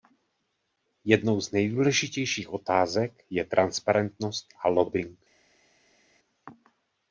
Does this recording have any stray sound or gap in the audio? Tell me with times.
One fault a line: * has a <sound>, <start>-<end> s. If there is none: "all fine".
all fine